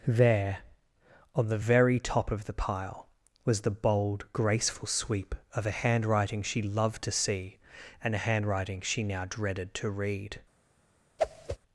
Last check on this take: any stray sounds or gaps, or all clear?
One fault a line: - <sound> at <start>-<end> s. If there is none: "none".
- whoosh at 11.2-11.6 s